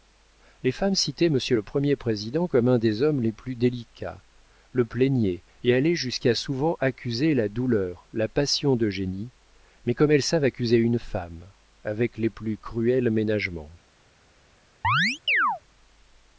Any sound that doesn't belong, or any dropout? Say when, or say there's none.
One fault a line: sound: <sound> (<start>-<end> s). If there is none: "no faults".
sound: chirp (14.8-15.6 s)